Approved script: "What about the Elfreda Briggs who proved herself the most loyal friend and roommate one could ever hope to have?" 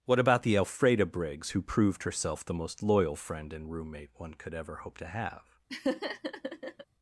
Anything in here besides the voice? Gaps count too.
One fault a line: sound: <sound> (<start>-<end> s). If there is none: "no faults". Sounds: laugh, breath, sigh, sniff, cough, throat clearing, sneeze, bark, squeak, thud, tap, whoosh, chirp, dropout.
sound: laugh (5.7-6.9 s)